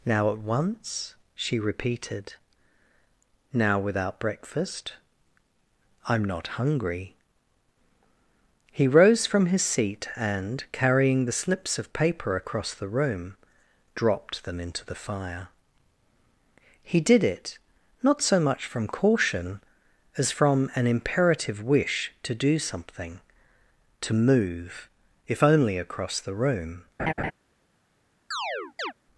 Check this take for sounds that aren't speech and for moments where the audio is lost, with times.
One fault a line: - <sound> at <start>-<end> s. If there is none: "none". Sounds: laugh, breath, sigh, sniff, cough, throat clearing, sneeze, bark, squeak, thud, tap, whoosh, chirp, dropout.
- laugh at 27.0-27.3 s
- chirp at 28.3-28.9 s